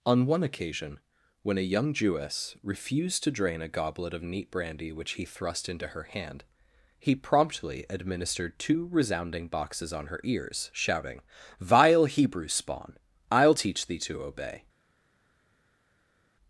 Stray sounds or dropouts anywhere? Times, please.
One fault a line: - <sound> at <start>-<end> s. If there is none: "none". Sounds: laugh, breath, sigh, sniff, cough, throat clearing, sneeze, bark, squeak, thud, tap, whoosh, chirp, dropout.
none